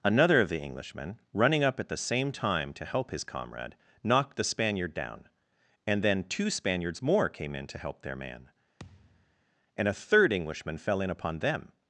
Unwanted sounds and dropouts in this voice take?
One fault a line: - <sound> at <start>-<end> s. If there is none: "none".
- thud at 8.8-9.4 s